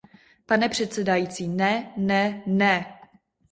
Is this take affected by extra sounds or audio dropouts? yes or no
no